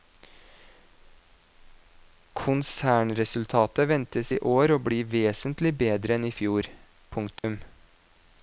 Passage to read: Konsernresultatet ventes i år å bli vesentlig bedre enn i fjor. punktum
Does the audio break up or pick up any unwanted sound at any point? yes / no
yes